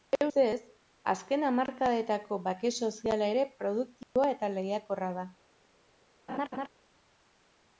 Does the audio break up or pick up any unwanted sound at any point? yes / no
yes